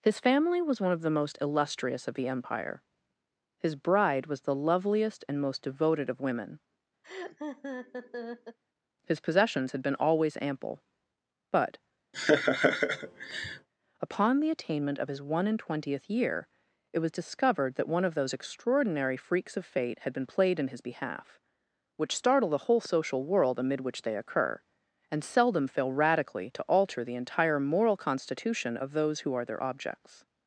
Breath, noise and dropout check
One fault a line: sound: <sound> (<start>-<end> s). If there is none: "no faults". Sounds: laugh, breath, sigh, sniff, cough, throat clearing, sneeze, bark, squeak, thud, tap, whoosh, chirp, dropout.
sound: laugh (7.0-8.6 s)
sound: laugh (12.1-13.7 s)